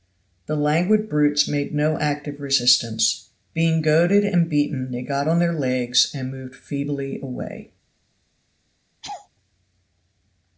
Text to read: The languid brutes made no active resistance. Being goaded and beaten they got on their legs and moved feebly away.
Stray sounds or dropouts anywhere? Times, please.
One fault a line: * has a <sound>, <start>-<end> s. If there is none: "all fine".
* has a laugh, 9.0-9.3 s